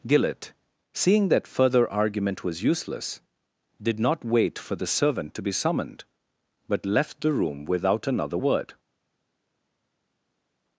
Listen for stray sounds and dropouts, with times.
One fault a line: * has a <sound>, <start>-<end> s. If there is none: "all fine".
all fine